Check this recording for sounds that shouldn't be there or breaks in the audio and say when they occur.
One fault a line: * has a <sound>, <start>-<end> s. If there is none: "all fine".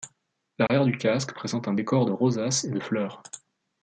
* has a dropout, 0.7-0.7 s